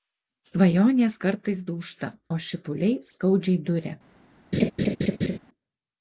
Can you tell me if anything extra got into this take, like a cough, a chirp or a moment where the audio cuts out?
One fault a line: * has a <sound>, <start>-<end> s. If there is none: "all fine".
* has a laugh, 4.5-5.4 s